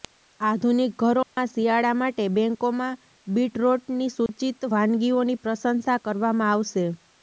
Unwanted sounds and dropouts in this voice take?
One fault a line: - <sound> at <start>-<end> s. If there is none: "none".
- dropout at 1.2-1.4 s
- dropout at 4.3-4.3 s